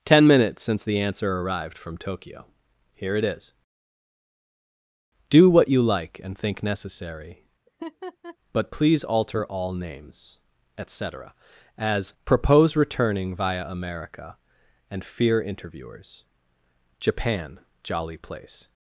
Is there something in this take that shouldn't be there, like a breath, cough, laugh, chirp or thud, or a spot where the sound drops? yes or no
yes